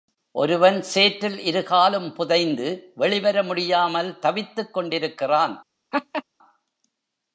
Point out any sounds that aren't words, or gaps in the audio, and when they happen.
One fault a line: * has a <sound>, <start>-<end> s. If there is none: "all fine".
* has a laugh, 5.9-6.2 s